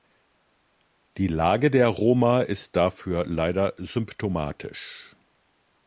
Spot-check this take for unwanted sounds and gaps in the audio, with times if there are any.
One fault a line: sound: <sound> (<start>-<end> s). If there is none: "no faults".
no faults